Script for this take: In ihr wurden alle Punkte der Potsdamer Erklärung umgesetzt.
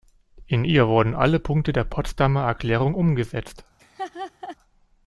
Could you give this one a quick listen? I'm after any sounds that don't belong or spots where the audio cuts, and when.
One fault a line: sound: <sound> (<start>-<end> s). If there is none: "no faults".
sound: laugh (3.8-4.6 s)